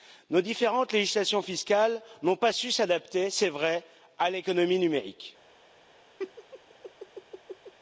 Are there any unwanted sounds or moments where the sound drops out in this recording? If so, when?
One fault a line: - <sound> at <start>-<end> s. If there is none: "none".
- laugh at 6.2-7.7 s